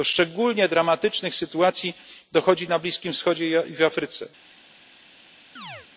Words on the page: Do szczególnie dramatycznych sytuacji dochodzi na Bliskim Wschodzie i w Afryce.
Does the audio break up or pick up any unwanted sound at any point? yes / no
yes